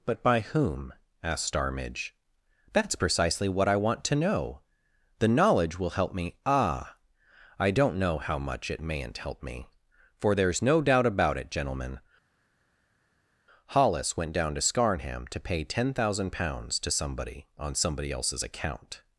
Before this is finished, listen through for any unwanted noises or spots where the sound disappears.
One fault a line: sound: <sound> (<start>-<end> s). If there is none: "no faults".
no faults